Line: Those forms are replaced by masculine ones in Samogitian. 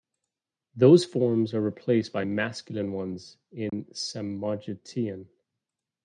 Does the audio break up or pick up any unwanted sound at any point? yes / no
yes